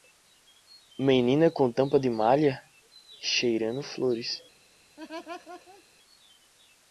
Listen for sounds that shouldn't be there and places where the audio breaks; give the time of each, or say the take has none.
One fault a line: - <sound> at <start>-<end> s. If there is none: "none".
- laugh at 5.0-5.8 s